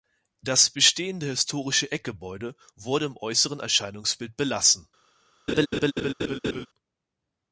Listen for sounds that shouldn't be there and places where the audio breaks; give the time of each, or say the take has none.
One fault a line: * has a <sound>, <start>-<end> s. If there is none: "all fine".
* has a laugh, 5.5-6.7 s